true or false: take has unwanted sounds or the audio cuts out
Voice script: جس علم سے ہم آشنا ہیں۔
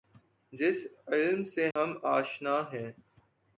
true